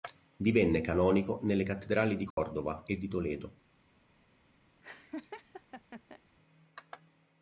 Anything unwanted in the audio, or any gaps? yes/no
yes